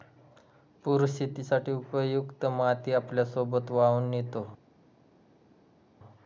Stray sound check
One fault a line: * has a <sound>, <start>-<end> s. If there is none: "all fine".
all fine